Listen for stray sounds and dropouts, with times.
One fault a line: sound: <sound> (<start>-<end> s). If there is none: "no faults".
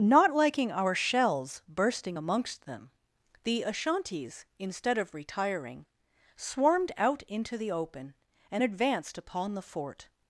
no faults